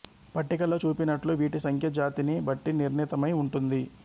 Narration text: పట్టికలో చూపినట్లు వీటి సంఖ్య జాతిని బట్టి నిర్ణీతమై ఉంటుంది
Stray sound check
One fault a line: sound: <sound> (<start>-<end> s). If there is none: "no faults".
no faults